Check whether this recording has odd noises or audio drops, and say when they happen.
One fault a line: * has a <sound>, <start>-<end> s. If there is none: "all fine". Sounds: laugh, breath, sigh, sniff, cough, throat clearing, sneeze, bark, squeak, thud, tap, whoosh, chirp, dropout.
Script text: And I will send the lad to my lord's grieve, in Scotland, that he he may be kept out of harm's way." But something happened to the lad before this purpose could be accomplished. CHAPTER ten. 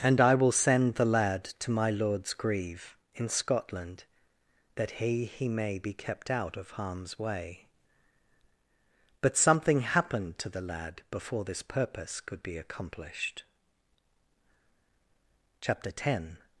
all fine